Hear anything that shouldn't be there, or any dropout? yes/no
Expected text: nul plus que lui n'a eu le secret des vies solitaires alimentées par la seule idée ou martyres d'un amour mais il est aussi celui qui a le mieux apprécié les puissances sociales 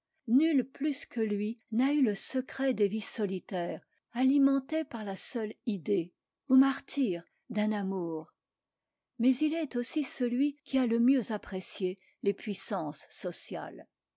no